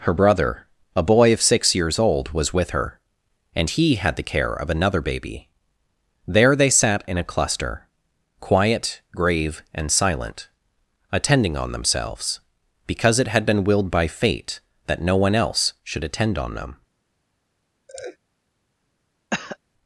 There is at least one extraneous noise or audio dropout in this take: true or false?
true